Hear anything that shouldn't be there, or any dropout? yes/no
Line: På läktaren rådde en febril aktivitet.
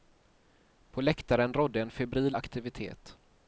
no